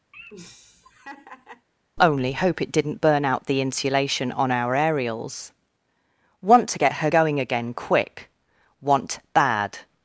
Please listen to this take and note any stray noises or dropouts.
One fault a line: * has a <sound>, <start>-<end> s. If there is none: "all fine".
* has a laugh, 0.1-1.7 s